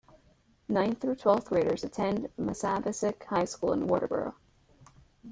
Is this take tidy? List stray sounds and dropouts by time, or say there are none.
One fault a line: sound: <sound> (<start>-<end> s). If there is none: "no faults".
no faults